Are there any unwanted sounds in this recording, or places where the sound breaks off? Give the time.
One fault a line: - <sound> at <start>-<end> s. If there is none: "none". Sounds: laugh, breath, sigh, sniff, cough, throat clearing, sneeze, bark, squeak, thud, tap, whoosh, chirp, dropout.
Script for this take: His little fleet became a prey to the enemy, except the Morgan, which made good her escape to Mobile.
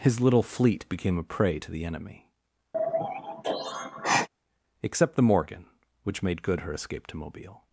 - sigh at 2.7-4.3 s